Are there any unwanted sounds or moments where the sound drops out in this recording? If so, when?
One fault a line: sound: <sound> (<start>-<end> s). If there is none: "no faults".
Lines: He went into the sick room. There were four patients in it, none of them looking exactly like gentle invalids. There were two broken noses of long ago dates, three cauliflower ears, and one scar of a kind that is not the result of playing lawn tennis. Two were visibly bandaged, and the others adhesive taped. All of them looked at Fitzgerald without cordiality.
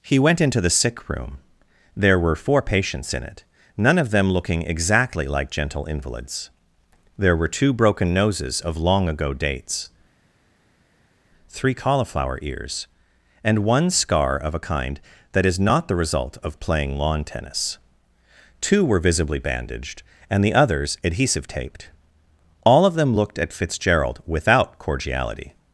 no faults